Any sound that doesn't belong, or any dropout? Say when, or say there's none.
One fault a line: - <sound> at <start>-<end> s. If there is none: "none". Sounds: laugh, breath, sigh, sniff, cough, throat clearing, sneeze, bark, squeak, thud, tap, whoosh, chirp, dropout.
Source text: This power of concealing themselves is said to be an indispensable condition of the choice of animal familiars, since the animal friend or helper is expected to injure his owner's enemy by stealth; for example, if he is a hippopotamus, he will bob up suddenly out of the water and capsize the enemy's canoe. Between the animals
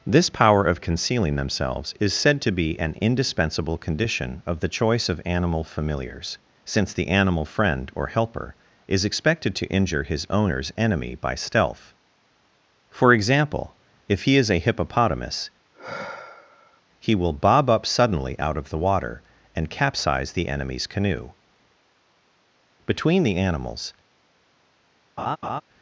- sigh at 15.7-16.8 s
- laugh at 25.2-25.6 s